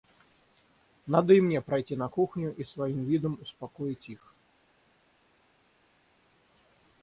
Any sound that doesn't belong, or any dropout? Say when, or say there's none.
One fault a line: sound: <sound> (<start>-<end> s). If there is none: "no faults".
no faults